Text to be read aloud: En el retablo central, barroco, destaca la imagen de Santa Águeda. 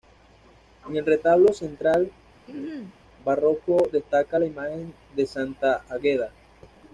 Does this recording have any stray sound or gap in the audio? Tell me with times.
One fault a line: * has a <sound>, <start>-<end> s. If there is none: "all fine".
* has a throat clearing, 2.5-3.0 s